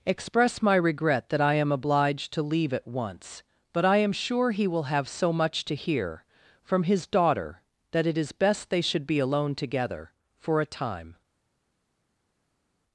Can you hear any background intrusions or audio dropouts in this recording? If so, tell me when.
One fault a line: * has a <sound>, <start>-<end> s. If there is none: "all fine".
all fine